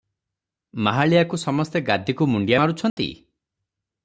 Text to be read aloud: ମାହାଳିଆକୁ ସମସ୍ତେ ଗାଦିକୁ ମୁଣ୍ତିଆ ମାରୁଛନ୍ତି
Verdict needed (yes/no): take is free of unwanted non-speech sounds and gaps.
no